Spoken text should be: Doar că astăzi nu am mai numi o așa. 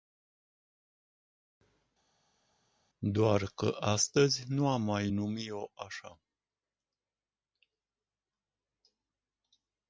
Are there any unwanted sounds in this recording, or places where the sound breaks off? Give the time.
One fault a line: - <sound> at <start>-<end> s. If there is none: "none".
none